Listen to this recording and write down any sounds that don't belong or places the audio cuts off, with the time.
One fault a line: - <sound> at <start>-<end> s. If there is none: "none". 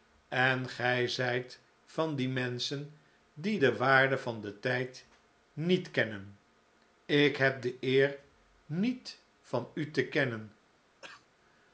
- cough at 11.0-11.3 s